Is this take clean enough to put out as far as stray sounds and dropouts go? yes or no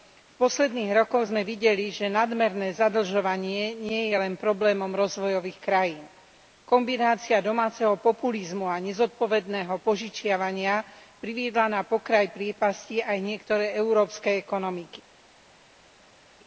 yes